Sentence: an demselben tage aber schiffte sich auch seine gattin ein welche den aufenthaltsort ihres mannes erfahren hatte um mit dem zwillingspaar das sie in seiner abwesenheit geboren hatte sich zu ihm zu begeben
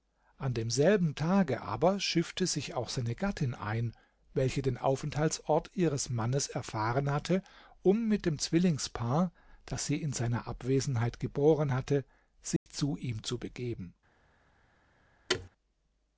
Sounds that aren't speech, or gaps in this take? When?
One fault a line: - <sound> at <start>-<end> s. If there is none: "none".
- dropout at 12.6-12.7 s
- thud at 15.3-15.5 s